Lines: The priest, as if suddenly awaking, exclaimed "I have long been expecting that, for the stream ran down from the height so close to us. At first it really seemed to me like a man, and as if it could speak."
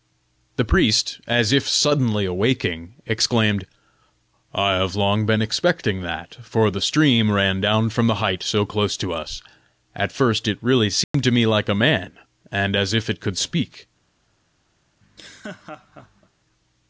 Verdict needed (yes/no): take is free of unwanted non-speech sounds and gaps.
no